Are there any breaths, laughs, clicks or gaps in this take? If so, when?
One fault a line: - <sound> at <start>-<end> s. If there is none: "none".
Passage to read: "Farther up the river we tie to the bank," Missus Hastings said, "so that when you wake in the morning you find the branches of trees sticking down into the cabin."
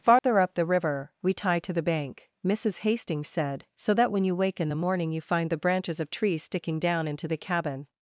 - dropout at 0.2-0.2 s